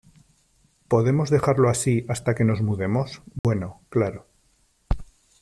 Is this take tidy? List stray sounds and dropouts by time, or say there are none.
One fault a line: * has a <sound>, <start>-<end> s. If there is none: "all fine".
* has a dropout, 3.4-3.4 s